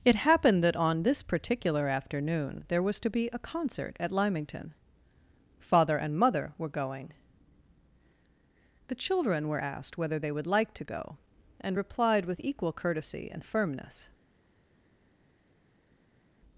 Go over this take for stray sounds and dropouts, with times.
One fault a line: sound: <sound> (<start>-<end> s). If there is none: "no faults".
no faults